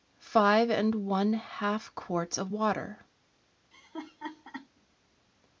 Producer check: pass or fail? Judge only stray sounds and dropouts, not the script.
fail